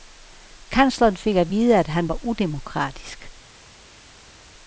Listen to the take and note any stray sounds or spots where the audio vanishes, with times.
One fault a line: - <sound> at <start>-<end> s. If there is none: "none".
none